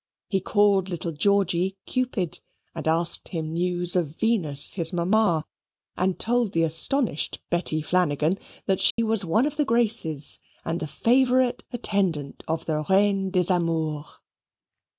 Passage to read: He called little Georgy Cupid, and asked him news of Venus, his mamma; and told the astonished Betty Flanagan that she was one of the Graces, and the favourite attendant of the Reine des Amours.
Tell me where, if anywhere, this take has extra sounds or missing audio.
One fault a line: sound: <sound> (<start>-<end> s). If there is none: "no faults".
sound: dropout (8.9-9.0 s)